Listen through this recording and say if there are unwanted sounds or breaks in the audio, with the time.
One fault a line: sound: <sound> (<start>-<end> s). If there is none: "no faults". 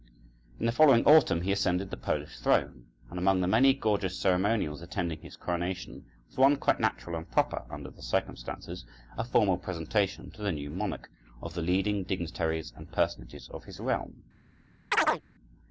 sound: chirp (14.9-15.2 s)